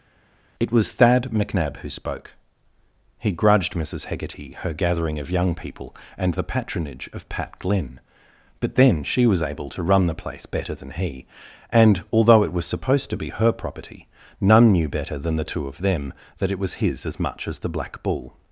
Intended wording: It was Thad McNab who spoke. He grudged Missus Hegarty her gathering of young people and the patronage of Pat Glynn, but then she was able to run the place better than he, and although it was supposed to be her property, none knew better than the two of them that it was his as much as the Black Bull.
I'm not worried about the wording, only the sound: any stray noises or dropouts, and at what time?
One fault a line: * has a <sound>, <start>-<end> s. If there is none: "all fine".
all fine